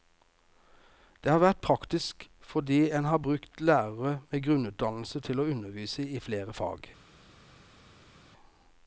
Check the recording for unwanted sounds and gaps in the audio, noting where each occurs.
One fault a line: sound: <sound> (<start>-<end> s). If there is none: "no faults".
no faults